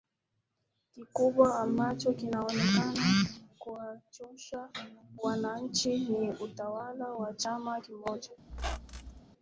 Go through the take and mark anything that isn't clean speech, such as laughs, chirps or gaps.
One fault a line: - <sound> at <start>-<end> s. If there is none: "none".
- squeak at 8.5-9.2 s